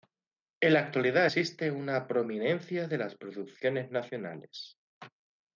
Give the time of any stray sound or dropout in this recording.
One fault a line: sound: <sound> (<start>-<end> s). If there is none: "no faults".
no faults